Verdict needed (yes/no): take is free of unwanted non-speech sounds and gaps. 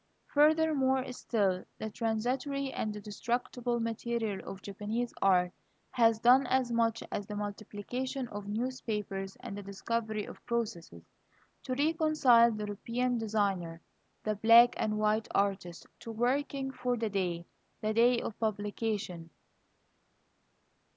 yes